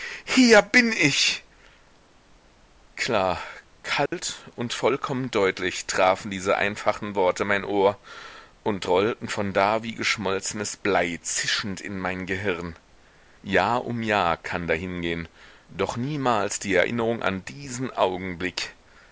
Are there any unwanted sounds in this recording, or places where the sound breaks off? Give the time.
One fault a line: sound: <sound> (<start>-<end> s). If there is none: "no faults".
sound: dropout (4.1-4.1 s)